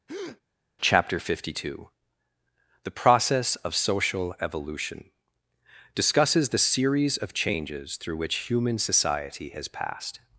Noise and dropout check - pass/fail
fail